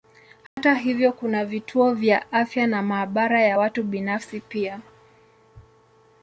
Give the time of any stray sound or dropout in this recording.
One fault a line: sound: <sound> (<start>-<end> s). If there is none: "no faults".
sound: dropout (0.5-0.6 s)